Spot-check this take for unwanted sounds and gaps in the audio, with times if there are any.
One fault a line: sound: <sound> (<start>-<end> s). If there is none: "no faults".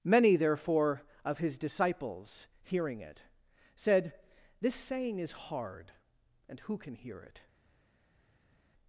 no faults